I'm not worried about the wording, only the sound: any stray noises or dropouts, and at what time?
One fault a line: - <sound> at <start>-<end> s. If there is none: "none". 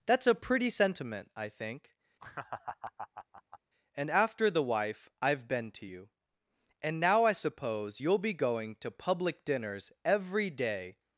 - laugh at 2.2-3.6 s